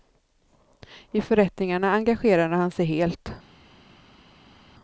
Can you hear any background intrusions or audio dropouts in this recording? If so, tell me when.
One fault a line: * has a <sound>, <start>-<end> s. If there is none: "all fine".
all fine